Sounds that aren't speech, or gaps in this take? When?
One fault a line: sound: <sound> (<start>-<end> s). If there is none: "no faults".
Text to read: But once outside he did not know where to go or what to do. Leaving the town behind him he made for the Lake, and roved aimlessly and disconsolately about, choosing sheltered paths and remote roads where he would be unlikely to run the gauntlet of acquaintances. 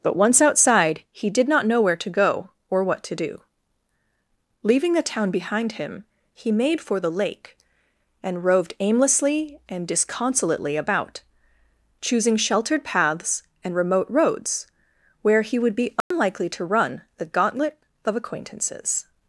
sound: dropout (16.0-16.1 s)